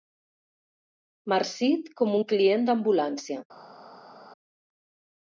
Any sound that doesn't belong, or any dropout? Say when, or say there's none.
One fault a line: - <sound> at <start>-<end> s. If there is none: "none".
none